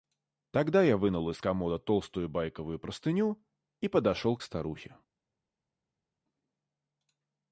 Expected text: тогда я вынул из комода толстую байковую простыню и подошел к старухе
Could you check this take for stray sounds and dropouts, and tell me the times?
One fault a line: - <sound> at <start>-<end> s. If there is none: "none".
none